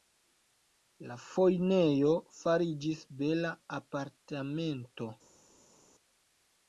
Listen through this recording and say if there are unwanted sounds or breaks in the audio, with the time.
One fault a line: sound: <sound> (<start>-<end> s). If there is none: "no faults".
no faults